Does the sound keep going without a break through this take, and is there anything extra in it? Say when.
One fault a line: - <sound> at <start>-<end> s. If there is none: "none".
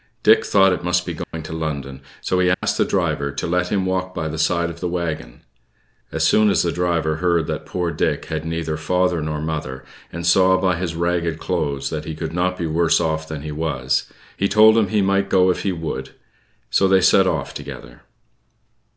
- dropout at 1.2-1.3 s
- dropout at 2.5-2.6 s